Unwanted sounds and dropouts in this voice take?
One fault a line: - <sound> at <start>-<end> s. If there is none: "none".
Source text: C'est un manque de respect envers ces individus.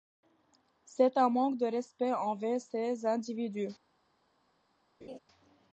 - laugh at 5.0-5.2 s